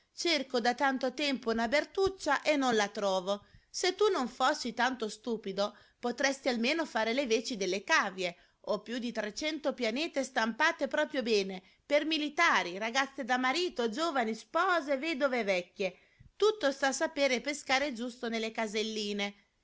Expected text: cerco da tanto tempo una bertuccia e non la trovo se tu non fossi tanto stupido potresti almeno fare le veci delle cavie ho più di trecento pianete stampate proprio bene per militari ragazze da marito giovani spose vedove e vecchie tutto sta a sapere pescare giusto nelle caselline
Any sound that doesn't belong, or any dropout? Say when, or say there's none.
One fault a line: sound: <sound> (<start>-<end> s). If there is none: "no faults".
no faults